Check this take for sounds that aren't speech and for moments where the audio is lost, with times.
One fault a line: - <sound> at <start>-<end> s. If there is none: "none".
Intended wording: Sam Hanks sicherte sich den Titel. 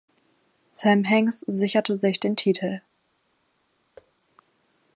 - thud at 4.0-4.1 s